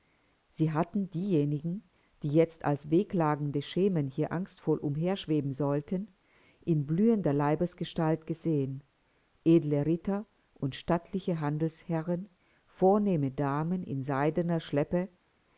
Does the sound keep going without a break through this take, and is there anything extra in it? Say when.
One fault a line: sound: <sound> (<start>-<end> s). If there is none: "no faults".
no faults